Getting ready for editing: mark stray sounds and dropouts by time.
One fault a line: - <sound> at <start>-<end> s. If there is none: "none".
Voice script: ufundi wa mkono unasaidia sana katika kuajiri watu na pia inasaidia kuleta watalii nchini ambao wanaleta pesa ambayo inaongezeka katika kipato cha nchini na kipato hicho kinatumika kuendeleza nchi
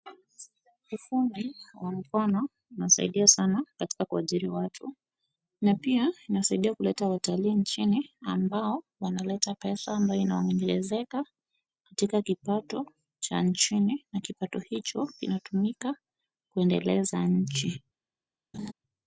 - laugh at 18.5-18.7 s